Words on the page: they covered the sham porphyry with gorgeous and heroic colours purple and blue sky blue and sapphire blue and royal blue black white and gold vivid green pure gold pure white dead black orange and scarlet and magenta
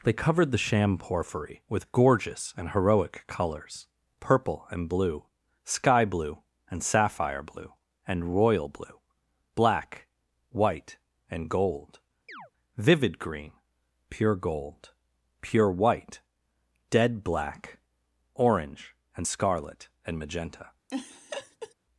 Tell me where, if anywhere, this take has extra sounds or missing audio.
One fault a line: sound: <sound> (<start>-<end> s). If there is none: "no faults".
sound: chirp (12.3-12.5 s)
sound: laugh (20.9-21.7 s)